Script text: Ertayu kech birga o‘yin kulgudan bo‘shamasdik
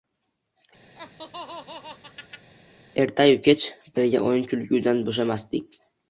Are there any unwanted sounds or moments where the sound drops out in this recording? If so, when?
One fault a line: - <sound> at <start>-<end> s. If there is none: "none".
- laugh at 0.9-2.5 s